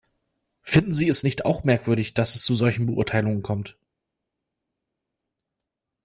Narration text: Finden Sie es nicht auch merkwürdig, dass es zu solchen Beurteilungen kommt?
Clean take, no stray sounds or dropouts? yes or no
yes